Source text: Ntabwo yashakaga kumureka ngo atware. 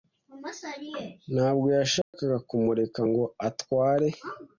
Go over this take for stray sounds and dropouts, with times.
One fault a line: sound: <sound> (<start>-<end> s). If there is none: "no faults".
sound: dropout (2.0-2.1 s)